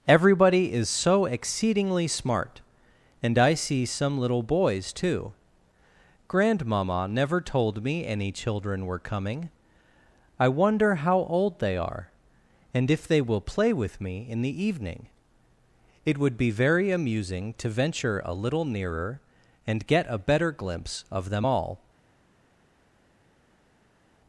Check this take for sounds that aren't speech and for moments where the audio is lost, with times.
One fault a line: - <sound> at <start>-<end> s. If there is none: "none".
none